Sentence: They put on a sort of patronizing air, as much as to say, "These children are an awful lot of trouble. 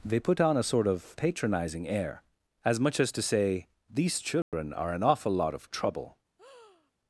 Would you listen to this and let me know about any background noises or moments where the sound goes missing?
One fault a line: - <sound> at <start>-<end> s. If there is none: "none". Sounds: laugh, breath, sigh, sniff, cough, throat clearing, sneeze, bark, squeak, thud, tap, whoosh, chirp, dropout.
- dropout at 4.4-4.5 s
- breath at 6.4-6.9 s